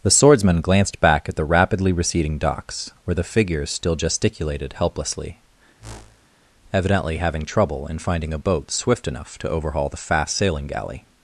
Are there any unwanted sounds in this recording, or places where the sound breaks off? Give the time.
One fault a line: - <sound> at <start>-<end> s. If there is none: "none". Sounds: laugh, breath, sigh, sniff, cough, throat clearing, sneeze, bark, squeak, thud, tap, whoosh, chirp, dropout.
- whoosh at 5.8-6.3 s